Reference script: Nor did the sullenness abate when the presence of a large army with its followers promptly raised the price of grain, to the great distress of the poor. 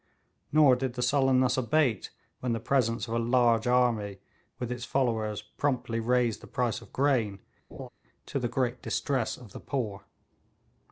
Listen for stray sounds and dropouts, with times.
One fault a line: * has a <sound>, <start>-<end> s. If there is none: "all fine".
* has a laugh, 7.7-7.9 s